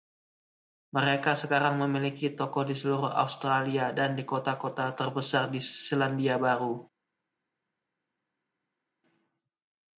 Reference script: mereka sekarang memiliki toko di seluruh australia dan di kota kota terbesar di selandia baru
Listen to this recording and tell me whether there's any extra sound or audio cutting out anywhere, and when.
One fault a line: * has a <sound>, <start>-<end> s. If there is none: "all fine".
all fine